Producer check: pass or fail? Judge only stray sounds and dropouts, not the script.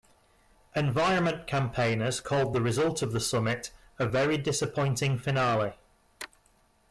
pass